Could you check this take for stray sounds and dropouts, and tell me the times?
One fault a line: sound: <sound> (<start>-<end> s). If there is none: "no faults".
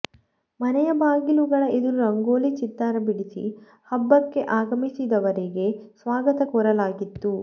no faults